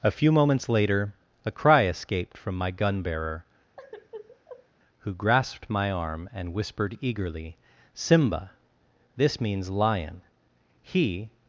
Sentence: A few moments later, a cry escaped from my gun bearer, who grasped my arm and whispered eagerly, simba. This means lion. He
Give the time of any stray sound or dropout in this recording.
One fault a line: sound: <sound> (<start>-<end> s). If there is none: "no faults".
sound: sigh (3.8-4.7 s)